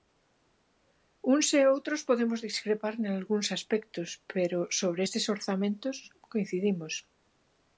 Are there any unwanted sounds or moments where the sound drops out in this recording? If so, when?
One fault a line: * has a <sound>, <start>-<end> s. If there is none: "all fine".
all fine